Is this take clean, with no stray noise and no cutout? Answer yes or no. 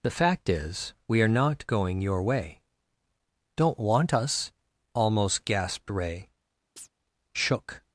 no